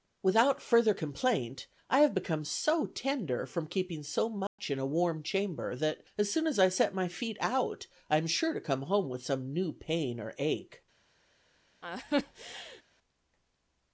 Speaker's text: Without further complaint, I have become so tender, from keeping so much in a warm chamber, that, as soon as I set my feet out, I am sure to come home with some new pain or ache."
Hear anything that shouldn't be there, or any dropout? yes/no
yes